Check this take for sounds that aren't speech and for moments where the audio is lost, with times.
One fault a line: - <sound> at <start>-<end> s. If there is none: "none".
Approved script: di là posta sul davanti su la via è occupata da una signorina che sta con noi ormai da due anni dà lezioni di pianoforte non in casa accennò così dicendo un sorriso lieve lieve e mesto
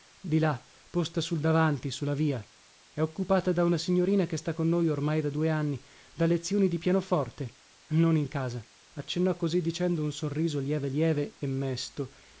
none